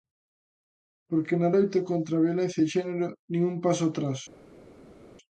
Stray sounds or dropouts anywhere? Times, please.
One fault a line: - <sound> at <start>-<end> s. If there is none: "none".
none